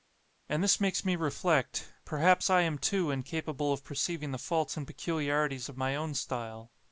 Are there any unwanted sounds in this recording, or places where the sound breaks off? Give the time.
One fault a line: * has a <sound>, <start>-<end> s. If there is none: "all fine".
all fine